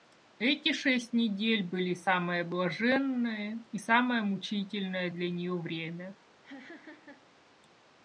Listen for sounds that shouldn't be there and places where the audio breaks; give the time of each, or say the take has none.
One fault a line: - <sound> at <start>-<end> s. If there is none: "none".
- laugh at 6.4-7.3 s